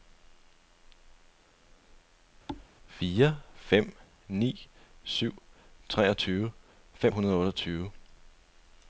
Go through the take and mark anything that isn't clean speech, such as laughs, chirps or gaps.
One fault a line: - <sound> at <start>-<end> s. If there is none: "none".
- thud at 2.5-2.7 s